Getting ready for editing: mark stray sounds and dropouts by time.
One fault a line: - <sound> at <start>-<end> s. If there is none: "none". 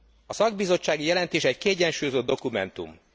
none